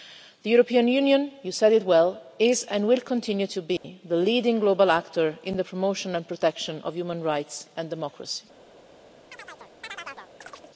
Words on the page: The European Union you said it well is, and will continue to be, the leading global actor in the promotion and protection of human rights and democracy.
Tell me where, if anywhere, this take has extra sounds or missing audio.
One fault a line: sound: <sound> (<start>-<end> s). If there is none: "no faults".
sound: dropout (3.8-3.8 s)
sound: chirp (9.3-10.7 s)